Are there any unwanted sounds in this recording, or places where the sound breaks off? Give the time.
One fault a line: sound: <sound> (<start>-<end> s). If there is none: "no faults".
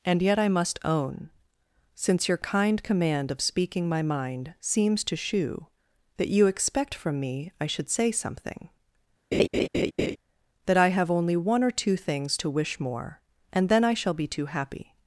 sound: laugh (9.3-10.2 s)